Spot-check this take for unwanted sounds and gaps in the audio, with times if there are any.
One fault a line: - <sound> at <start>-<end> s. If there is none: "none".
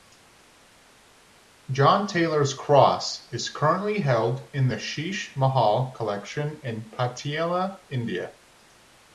none